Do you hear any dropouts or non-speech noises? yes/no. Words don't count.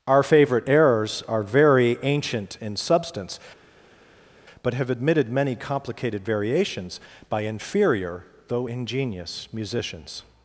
no